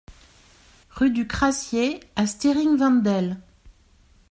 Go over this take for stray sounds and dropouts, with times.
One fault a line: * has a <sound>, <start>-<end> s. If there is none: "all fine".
all fine